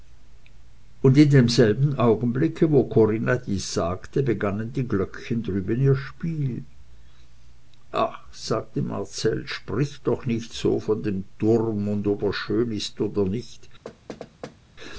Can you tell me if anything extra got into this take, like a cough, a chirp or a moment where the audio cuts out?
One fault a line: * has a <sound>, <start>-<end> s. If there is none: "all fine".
* has a thud, 13.8-14.6 s